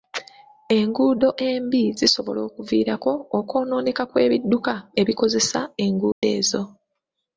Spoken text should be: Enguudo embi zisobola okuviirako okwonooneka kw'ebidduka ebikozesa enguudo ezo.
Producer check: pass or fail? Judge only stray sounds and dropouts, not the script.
fail